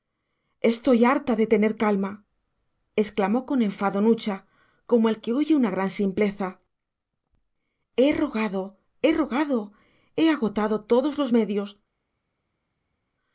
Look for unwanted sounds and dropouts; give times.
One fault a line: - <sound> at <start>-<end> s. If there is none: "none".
none